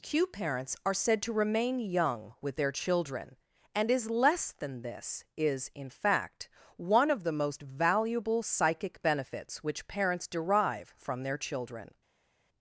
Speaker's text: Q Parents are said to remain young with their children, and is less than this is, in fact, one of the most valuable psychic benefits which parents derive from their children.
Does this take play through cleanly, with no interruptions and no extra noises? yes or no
yes